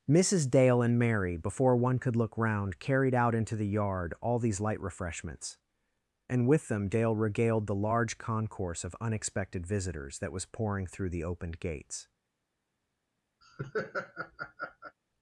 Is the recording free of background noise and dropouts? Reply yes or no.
no